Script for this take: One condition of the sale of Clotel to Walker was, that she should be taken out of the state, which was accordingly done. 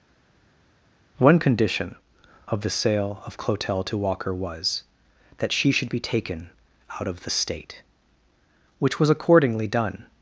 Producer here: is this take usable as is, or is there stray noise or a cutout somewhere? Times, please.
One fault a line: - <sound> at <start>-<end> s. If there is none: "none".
none